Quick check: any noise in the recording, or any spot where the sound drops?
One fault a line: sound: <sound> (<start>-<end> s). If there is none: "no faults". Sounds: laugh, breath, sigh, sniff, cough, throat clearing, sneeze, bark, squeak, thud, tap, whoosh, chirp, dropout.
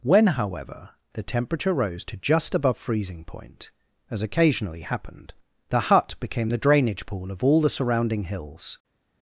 no faults